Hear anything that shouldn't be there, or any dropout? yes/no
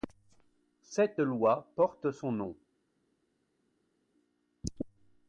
no